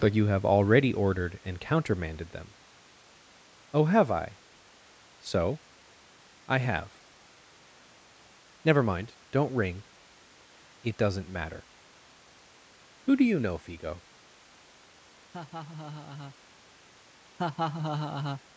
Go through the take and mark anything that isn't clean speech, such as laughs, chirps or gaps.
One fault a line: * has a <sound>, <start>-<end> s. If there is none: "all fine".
* has a laugh, 15.3-16.4 s
* has a laugh, 17.4-18.4 s